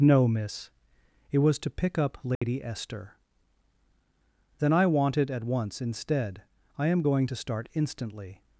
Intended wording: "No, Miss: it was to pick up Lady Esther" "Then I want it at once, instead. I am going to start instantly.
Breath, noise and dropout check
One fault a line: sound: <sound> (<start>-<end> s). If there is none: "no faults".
sound: dropout (2.3-2.4 s)